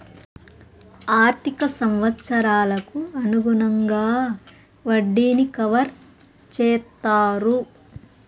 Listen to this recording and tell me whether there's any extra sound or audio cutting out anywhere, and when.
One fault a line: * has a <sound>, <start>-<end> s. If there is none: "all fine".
all fine